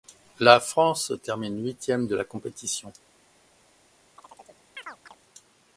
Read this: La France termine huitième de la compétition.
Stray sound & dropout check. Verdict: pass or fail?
fail